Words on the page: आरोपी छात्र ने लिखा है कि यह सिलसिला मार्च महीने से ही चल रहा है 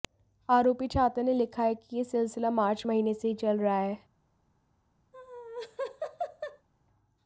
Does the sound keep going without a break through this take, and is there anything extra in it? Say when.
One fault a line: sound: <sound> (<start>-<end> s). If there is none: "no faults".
sound: laugh (5.1-6.7 s)